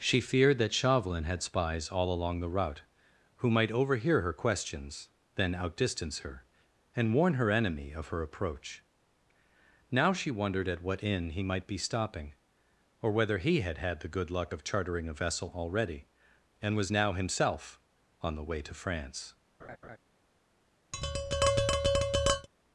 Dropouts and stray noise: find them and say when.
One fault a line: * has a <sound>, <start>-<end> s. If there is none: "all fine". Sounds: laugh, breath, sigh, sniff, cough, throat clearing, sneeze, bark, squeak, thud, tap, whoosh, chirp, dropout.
* has a laugh, 19.6-20.0 s
* has a tap, 20.9-22.5 s